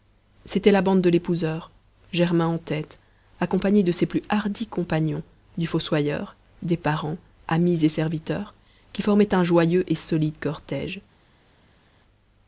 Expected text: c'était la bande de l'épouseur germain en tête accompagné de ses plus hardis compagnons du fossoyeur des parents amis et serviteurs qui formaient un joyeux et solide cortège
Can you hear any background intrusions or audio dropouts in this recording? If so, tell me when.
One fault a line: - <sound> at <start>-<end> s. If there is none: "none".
none